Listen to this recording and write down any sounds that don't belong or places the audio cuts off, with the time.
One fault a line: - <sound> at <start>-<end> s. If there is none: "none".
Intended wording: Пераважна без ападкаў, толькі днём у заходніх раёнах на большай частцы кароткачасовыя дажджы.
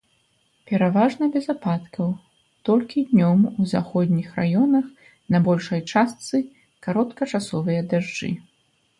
none